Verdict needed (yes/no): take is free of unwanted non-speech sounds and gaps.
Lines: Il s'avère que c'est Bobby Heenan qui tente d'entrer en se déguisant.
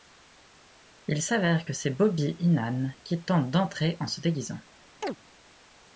no